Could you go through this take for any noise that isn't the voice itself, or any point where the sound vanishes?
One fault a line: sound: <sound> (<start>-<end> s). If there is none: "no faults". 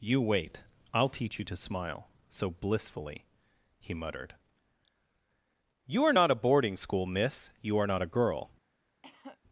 sound: cough (9.0-9.4 s)